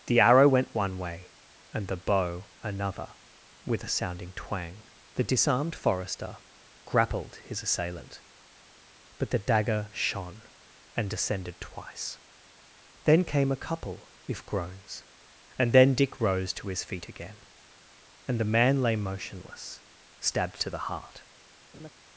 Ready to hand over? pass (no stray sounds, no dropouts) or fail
fail